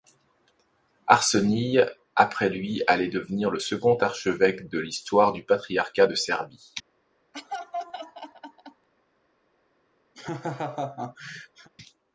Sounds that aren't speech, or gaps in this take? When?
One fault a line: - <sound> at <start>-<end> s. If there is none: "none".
- laugh at 7.3-8.9 s
- laugh at 10.1-11.7 s